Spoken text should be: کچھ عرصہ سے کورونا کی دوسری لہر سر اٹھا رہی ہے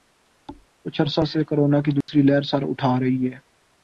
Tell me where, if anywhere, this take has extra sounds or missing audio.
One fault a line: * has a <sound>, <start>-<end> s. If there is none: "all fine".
* has a thud, 0.5-0.7 s
* has a dropout, 2.0-2.1 s